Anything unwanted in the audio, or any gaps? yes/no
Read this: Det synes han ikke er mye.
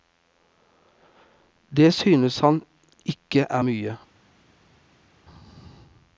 no